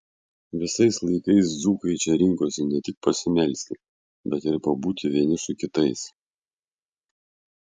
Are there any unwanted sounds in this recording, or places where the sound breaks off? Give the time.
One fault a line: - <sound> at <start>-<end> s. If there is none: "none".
none